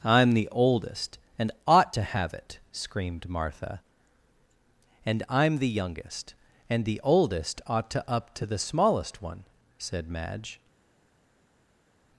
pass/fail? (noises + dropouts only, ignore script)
pass